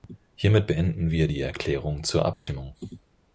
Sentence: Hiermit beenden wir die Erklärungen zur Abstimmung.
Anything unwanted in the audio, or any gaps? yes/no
yes